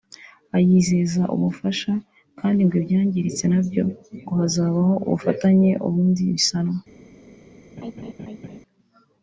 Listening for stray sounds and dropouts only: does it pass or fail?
fail